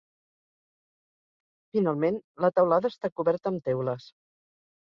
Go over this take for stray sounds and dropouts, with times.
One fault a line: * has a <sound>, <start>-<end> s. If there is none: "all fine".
all fine